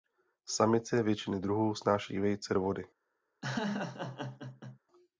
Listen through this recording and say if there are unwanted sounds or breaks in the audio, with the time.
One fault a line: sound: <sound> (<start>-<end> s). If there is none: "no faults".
sound: laugh (3.4-4.8 s)